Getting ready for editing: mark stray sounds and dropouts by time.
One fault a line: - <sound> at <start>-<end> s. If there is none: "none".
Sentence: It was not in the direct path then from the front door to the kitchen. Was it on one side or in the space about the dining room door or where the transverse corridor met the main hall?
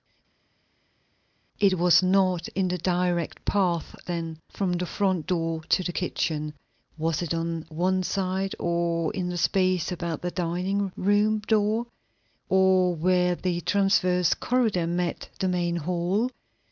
none